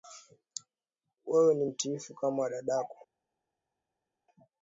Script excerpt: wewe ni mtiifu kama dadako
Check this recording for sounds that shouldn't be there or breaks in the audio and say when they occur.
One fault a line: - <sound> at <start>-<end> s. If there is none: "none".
none